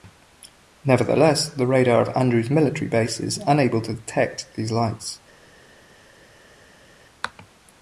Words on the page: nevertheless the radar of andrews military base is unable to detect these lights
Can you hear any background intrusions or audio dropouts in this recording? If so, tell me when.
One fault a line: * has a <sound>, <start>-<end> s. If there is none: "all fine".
all fine